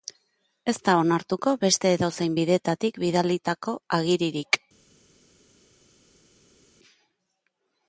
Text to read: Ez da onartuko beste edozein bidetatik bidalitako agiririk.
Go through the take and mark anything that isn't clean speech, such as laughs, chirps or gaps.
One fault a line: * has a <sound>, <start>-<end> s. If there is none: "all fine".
all fine